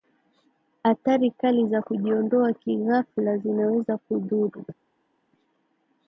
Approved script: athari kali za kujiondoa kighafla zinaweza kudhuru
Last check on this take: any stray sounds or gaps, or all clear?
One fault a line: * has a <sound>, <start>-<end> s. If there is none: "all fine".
all fine